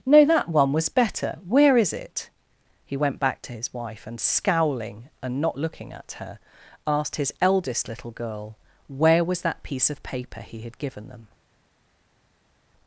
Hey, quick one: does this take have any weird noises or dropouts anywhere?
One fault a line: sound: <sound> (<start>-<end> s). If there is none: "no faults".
no faults